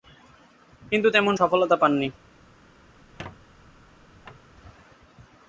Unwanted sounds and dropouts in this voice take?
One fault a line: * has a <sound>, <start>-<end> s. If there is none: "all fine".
* has a squeak, 3.0-4.5 s